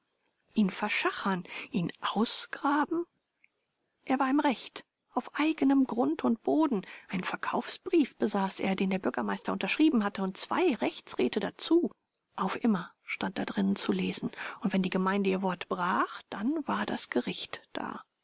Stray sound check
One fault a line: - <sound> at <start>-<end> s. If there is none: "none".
none